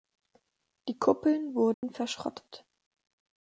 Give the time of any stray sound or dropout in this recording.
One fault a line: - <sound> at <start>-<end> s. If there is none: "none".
- dropout at 1.7-1.8 s